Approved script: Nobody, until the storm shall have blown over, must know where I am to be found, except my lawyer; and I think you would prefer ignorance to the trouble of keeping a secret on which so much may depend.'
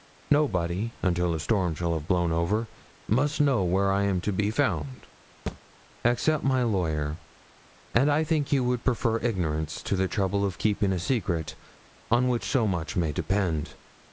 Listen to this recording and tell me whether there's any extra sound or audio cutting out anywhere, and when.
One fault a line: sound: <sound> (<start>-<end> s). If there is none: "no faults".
sound: thud (5.5-5.6 s)